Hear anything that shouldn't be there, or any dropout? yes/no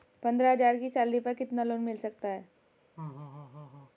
yes